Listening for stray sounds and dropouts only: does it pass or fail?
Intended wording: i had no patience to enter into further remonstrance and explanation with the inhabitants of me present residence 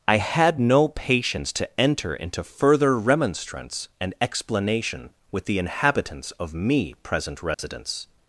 fail